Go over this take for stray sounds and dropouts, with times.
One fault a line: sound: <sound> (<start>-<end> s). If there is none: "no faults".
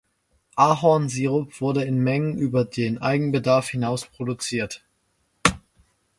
no faults